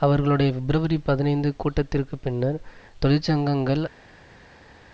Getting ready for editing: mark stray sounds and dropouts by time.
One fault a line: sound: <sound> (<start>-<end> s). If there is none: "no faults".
no faults